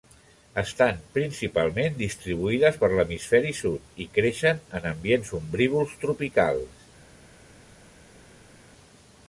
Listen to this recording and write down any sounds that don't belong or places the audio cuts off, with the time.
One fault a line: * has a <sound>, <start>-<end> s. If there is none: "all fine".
all fine